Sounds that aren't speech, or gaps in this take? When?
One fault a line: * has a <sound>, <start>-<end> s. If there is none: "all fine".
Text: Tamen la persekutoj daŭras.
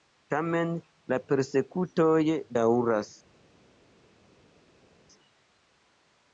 all fine